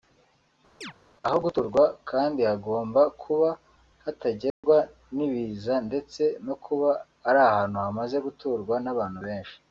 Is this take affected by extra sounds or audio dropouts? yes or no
yes